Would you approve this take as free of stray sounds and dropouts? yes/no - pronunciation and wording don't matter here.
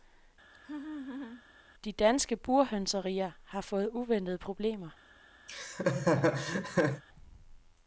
no